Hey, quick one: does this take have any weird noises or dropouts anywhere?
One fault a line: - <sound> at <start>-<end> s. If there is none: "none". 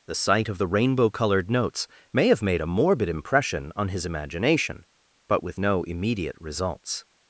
none